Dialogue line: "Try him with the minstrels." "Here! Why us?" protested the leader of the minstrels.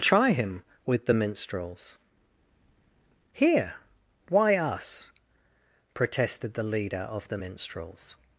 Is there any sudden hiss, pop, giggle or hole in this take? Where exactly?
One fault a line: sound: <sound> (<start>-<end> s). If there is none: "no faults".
no faults